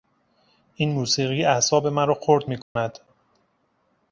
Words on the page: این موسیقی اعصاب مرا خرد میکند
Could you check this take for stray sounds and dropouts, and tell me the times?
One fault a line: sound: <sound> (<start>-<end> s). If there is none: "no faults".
sound: dropout (2.6-2.8 s)